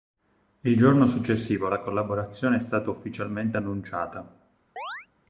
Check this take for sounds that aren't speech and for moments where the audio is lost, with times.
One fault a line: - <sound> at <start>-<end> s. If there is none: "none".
- chirp at 4.8-5.1 s